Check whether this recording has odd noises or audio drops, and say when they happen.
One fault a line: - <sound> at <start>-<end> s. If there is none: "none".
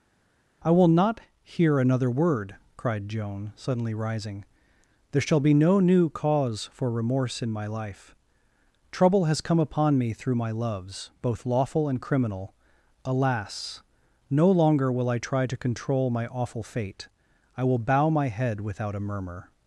none